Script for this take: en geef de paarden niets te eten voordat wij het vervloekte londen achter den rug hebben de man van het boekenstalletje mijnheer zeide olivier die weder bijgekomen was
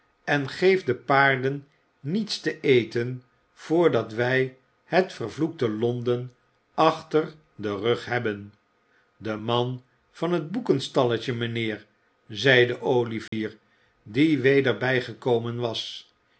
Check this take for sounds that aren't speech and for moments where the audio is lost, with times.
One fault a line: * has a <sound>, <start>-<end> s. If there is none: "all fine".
* has a dropout, 13.3-13.3 s